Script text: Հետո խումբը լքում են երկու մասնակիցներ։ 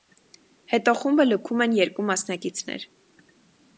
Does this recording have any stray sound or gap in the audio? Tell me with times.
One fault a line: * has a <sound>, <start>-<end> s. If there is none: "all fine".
all fine